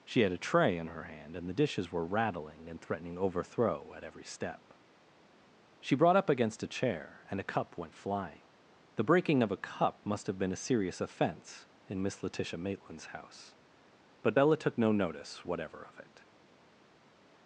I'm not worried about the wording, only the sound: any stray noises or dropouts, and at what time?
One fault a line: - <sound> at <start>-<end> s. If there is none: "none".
none